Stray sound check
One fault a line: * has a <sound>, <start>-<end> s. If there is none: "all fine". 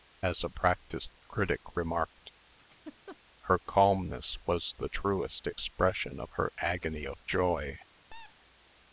* has a laugh, 2.6-3.2 s
* has a squeak, 8.1-8.4 s